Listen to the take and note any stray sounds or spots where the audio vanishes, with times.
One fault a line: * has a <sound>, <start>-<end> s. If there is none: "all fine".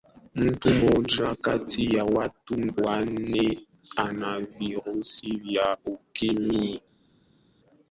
all fine